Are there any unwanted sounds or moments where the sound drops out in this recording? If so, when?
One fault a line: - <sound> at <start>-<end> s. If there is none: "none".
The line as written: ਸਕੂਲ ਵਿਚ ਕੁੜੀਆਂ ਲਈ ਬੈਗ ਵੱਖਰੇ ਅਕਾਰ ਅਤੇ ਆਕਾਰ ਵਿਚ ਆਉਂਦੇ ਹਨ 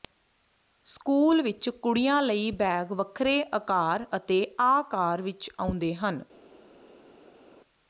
none